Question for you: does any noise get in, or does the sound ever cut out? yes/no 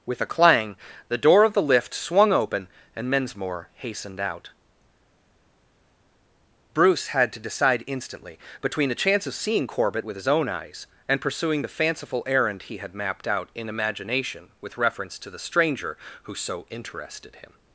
no